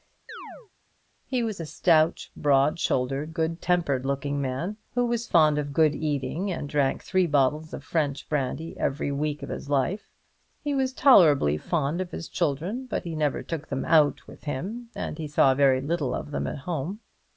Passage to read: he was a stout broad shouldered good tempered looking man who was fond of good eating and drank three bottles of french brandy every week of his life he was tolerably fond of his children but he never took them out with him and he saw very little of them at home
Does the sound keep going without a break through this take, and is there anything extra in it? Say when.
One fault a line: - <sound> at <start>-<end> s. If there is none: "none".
- chirp at 0.3-0.7 s